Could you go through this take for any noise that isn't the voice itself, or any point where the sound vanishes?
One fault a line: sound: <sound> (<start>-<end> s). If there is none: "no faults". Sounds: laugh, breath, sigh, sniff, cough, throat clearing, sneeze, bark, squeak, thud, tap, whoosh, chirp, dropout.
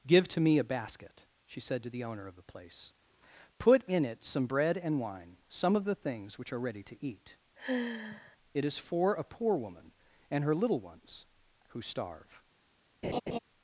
sound: sigh (7.6-8.4 s)
sound: laugh (13.0-13.4 s)